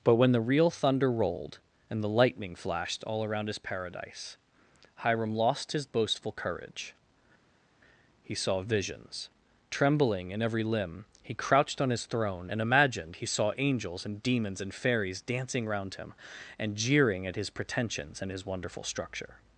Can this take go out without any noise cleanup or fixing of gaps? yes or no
yes